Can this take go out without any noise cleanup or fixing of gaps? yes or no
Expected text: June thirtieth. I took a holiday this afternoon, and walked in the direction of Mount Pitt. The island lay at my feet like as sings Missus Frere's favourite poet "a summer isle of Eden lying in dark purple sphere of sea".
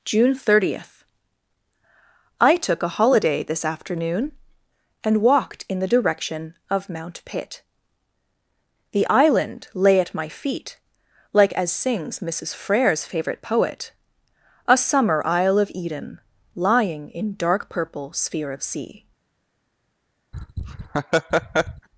no